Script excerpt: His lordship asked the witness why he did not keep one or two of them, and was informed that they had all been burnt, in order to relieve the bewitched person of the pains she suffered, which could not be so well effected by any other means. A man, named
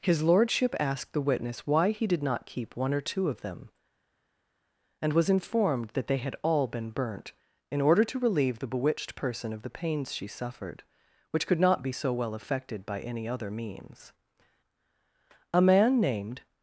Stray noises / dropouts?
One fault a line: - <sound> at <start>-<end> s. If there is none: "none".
none